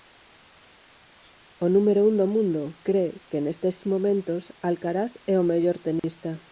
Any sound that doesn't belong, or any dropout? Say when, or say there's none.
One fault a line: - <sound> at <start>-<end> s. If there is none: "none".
- dropout at 6.0-6.0 s